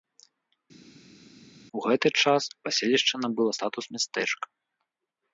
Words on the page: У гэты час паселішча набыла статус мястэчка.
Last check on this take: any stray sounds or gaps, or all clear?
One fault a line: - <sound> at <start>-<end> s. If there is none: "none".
none